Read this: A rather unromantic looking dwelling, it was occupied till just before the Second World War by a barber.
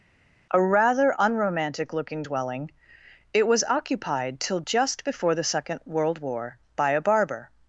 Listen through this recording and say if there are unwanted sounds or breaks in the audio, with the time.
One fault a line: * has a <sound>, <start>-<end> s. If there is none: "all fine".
all fine